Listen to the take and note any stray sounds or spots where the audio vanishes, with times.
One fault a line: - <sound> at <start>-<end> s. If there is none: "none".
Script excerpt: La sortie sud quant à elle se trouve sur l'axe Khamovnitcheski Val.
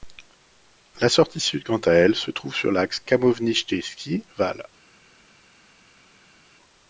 none